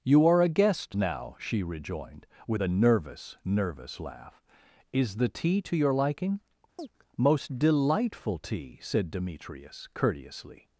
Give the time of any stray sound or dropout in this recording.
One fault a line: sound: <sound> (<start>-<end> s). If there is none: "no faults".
sound: chirp (6.8-6.9 s)